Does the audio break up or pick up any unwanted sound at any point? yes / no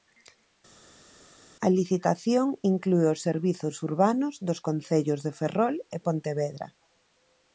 no